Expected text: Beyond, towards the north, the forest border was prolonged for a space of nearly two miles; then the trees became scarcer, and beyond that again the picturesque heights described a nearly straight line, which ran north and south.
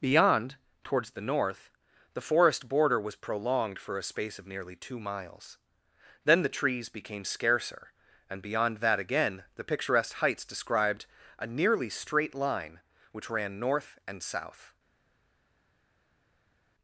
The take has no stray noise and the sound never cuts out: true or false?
true